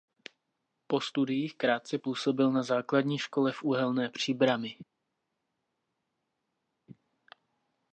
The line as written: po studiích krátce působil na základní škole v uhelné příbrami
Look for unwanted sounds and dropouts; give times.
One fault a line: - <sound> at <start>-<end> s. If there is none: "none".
none